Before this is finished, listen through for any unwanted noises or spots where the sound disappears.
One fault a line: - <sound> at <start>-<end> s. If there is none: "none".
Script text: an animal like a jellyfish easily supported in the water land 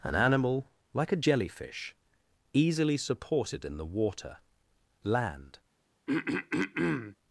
- throat clearing at 6.1-7.2 s